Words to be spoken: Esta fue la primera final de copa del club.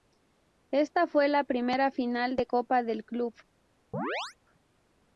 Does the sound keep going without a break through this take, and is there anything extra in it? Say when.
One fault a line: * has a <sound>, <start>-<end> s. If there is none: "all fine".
* has a chirp, 3.9-4.4 s